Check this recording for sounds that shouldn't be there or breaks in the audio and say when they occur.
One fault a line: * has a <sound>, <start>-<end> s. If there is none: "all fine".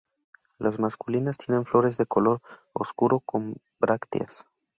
all fine